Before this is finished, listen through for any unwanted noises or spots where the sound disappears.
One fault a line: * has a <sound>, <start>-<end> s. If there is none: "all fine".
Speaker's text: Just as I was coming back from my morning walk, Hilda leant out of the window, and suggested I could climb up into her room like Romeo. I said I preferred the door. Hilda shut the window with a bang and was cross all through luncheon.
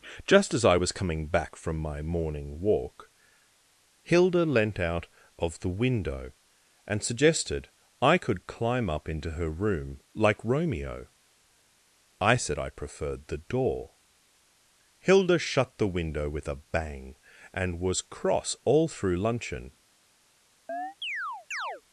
* has a chirp, 20.7-21.8 s